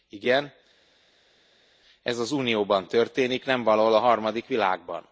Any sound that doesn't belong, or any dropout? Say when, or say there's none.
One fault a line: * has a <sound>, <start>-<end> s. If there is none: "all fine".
all fine